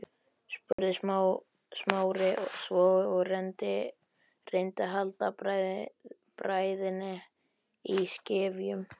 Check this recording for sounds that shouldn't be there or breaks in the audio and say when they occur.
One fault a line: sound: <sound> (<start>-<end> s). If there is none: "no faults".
sound: dropout (0.7-0.8 s)